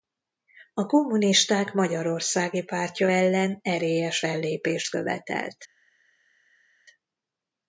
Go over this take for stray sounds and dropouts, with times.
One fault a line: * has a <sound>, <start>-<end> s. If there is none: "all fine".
all fine